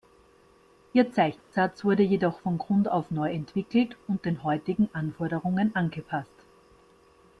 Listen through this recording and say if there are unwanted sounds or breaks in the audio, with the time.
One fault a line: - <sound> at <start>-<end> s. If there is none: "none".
- dropout at 1.4-1.5 s